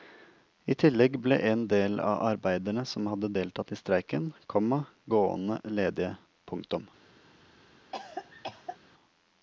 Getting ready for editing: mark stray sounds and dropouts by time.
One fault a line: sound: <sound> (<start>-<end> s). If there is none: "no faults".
sound: cough (7.9-8.8 s)